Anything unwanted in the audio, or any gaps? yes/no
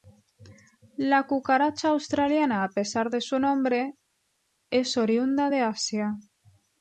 no